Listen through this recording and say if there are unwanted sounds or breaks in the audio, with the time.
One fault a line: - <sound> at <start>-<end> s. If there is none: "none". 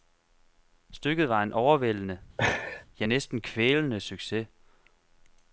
- laugh at 2.4-2.8 s